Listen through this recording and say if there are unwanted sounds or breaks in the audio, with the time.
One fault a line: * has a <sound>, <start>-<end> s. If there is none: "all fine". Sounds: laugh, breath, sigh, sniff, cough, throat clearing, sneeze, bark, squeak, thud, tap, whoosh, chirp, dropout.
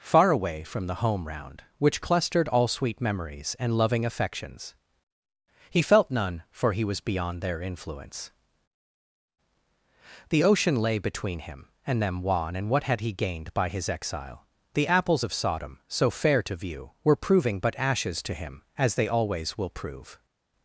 all fine